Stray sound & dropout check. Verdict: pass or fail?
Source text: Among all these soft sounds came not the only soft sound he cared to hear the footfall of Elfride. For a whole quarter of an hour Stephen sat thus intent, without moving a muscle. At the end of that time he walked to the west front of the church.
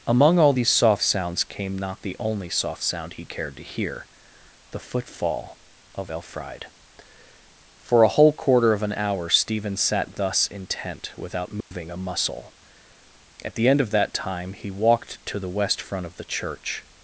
fail